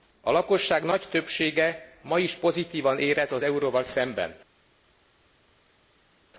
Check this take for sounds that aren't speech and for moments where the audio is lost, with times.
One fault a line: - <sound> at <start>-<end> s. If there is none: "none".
none